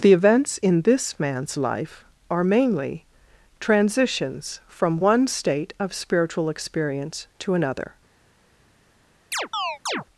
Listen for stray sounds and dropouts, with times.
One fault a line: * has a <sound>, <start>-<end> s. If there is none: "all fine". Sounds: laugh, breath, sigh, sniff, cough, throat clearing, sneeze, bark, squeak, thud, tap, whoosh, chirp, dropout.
* has a chirp, 9.3-10.0 s